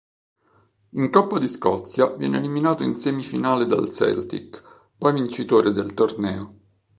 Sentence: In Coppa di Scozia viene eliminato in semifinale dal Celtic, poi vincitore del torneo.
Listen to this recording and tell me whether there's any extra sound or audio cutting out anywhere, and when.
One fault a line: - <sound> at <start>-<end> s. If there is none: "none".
none